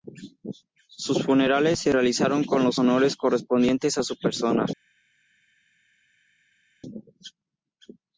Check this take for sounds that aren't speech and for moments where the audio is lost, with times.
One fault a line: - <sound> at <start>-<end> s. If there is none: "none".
none